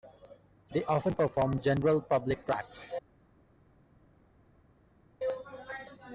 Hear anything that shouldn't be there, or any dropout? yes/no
no